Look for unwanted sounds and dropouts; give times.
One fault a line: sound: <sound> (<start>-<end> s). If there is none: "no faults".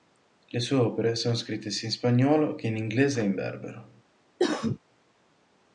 sound: cough (4.4-4.8 s)